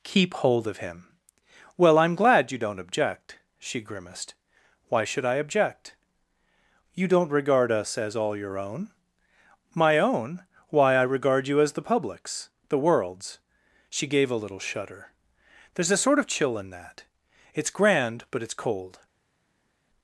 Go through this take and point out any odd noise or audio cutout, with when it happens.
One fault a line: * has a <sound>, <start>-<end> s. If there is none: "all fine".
all fine